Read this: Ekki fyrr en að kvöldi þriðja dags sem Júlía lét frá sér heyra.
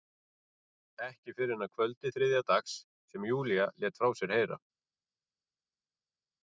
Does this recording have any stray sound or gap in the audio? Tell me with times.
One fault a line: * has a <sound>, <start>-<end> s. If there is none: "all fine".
all fine